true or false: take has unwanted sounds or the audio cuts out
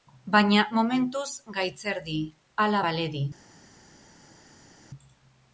false